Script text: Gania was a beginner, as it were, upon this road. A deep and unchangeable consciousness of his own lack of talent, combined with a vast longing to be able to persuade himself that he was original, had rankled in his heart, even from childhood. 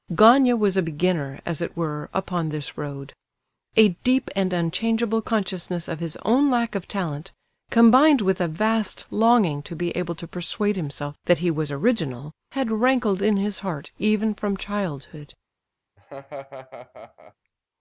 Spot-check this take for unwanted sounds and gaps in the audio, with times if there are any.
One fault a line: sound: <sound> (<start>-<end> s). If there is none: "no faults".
sound: laugh (16.0-17.3 s)